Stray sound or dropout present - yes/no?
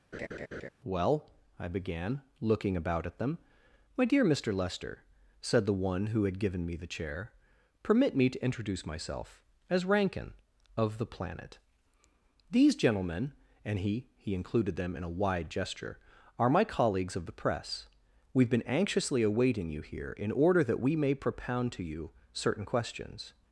yes